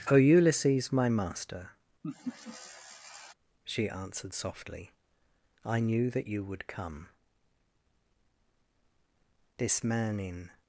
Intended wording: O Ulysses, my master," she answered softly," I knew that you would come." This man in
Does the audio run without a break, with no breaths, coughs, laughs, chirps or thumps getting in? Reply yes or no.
no